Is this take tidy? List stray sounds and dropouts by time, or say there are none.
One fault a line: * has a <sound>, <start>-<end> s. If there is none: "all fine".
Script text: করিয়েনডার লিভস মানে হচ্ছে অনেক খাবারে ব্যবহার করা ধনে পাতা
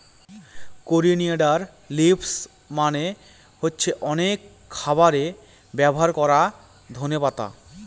all fine